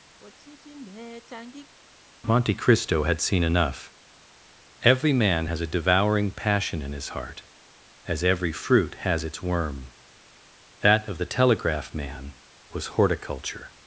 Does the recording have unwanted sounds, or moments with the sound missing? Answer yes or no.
yes